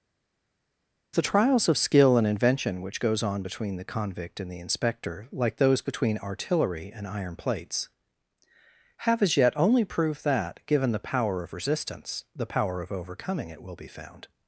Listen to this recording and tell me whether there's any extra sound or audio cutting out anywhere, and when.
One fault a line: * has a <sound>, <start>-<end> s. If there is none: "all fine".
all fine